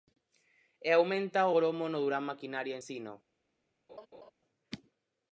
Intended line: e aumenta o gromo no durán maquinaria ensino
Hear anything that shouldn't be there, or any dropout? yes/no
yes